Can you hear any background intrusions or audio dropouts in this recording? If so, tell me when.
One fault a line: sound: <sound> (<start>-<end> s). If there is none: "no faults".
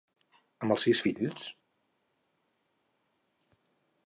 no faults